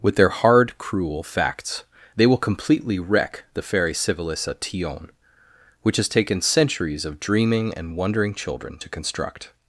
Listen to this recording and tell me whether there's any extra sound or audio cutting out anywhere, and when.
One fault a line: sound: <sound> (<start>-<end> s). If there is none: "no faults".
no faults